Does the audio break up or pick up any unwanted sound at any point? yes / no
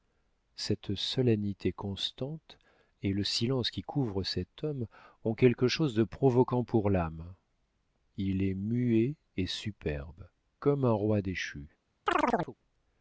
yes